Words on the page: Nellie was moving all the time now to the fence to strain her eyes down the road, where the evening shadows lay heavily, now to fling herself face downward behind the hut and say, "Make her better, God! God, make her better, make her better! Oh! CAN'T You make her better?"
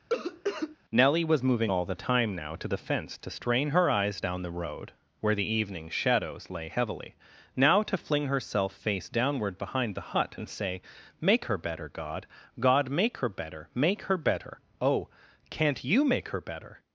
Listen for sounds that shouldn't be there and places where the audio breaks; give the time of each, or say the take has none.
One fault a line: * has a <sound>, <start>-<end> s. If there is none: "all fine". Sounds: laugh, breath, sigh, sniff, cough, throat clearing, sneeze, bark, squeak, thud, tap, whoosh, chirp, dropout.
* has a cough, 0.1-0.8 s